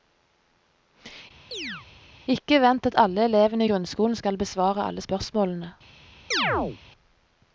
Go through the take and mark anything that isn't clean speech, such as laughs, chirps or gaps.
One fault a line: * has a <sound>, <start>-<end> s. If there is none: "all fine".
* has a chirp, 1.5-1.9 s
* has a chirp, 6.3-6.8 s